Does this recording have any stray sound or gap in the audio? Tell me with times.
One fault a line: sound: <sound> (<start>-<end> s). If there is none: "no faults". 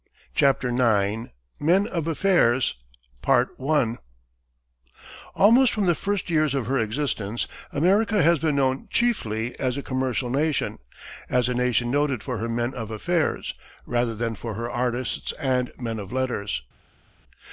no faults